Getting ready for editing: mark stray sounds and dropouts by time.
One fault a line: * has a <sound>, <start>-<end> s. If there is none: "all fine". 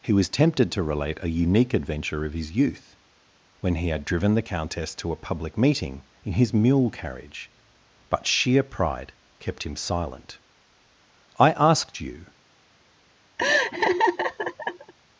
* has a laugh, 13.4-14.9 s